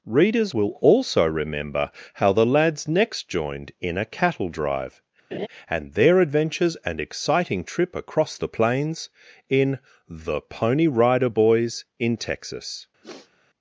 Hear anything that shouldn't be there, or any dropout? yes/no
yes